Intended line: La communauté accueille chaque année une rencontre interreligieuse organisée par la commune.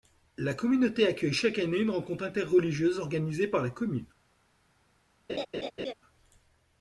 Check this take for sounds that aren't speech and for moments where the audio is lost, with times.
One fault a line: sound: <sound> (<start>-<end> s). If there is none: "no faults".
sound: laugh (5.3-5.9 s)